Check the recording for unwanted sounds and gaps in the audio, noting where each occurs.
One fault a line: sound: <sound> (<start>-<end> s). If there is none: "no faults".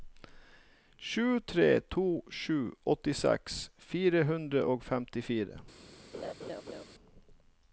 sound: laugh (6.1-6.8 s)